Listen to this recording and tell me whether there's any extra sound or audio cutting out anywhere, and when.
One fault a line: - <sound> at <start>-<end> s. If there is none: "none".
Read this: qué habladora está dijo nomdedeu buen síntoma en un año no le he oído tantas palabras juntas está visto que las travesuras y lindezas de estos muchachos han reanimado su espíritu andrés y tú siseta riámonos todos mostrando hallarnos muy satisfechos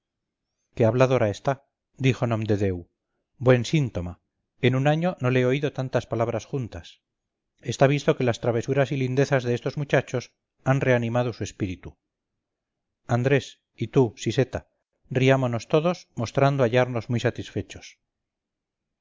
none